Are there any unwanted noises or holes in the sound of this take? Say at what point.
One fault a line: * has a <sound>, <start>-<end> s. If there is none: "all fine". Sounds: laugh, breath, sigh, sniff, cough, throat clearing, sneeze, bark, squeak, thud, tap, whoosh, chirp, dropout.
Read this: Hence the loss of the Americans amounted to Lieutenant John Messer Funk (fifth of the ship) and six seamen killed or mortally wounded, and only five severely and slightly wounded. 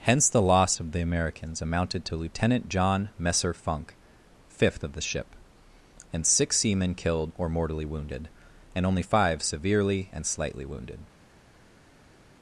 all fine